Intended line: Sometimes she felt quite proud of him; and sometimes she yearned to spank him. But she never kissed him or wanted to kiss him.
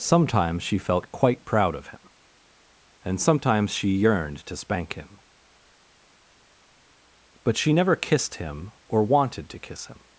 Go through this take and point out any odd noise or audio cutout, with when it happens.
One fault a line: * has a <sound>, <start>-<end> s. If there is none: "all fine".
all fine